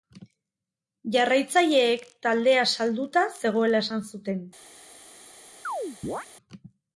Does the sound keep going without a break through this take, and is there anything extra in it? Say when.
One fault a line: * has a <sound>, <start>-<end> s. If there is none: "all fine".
* has a chirp, 5.6-6.3 s